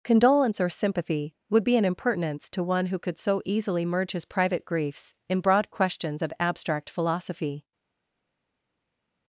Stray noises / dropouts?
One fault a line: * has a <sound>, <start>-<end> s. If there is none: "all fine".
all fine